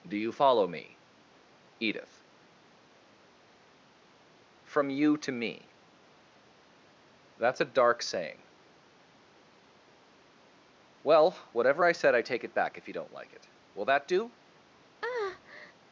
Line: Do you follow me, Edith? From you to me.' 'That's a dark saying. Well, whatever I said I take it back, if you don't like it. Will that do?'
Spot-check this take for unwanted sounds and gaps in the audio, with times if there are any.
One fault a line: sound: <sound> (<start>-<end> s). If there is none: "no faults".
sound: breath (15.0-15.7 s)